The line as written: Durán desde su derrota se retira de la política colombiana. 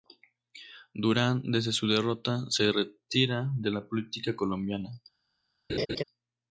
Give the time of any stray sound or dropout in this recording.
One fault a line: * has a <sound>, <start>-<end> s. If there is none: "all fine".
* has a laugh, 5.7-6.0 s